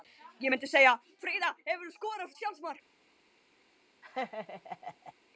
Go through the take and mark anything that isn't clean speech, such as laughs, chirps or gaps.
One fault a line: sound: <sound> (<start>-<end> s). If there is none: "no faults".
sound: laugh (4.0-5.1 s)